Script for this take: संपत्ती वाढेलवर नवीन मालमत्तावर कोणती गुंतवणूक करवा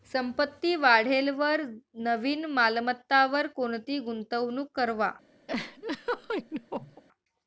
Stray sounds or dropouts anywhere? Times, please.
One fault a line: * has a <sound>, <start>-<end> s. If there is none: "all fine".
* has a laugh, 5.5-7.0 s